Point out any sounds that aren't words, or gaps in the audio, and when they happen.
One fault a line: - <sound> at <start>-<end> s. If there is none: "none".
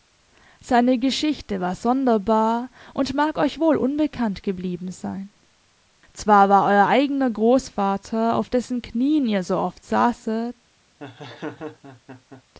- laugh at 11.0-12.4 s